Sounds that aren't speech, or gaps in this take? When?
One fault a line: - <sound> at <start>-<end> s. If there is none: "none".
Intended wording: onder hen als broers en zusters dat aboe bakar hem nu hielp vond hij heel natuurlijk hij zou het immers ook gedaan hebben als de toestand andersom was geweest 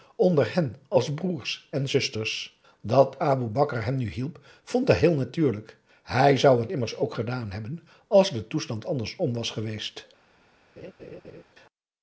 - laugh at 10.8-11.4 s